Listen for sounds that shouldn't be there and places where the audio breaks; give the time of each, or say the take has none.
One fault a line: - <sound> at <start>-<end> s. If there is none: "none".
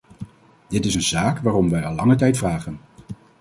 none